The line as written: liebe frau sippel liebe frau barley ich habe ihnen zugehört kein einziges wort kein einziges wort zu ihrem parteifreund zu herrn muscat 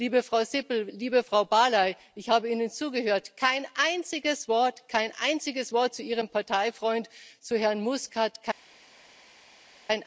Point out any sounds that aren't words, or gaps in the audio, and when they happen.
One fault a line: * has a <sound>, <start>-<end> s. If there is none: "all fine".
all fine